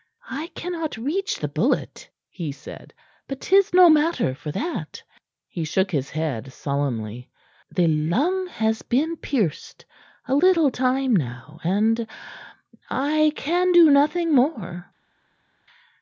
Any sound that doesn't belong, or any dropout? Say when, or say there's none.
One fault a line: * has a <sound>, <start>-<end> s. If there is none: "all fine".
all fine